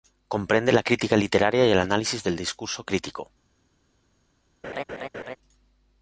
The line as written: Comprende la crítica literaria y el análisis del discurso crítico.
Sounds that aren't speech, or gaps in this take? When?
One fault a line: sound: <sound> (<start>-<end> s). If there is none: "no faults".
sound: laugh (4.6-5.4 s)